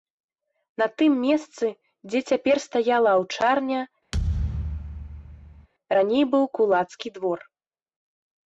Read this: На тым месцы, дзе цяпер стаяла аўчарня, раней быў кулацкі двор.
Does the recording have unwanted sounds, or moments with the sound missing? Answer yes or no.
yes